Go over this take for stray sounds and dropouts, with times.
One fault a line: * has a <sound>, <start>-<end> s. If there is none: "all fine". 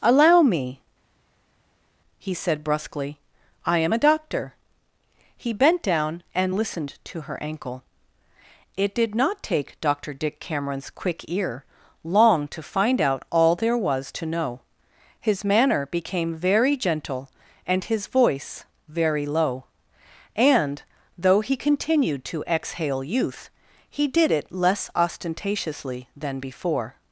all fine